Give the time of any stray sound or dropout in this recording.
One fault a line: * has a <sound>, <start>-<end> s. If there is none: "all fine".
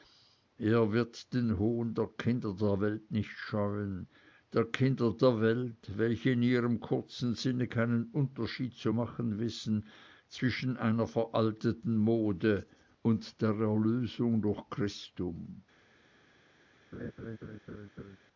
* has a laugh, 16.9-18.2 s